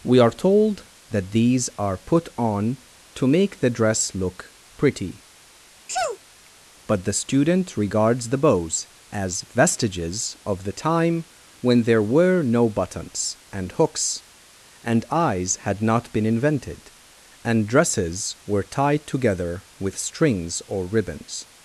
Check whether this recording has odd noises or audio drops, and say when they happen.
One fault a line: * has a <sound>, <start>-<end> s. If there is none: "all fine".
* has a sneeze, 5.9-6.2 s